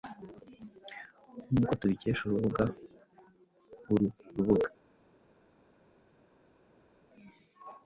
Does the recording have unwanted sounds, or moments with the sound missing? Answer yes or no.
no